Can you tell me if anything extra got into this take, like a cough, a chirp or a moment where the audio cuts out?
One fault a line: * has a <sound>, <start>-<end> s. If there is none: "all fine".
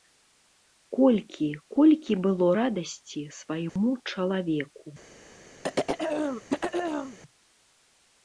* has a dropout, 3.7-3.8 s
* has a throat clearing, 5.6-7.2 s